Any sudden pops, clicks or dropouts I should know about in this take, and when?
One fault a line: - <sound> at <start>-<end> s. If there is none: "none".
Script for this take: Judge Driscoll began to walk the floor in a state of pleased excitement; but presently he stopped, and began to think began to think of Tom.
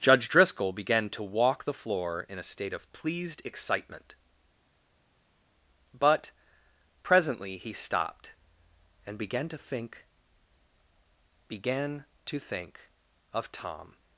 none